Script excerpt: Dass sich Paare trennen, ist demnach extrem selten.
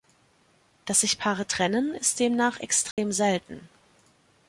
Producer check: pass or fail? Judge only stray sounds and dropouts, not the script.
fail